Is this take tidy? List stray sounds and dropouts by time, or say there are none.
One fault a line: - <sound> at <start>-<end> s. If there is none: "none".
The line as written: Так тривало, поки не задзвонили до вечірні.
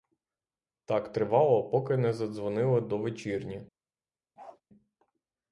- bark at 4.4-4.6 s